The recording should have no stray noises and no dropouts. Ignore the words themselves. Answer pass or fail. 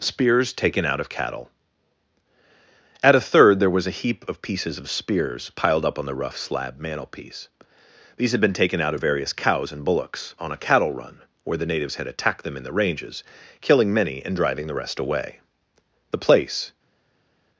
pass